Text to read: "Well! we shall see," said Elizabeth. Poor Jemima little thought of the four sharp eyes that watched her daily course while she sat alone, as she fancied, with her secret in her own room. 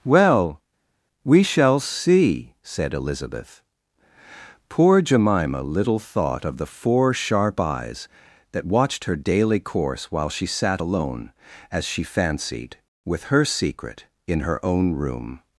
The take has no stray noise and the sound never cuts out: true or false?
true